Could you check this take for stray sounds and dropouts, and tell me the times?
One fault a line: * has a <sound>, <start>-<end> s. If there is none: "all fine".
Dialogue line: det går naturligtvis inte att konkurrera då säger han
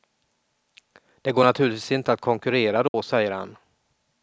* has a dropout, 2.9-2.9 s